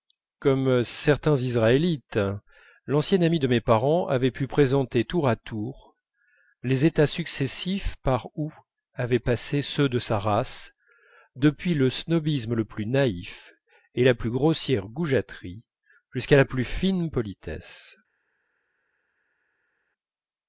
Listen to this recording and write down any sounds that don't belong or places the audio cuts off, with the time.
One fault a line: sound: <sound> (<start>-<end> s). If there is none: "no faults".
no faults